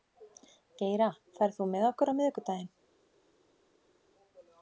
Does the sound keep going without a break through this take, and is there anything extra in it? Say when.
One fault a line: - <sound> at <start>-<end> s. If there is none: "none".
none